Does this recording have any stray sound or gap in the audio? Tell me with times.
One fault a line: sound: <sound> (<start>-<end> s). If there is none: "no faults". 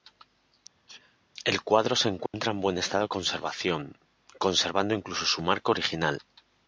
sound: sneeze (0.9-1.2 s)
sound: dropout (2.3-2.3 s)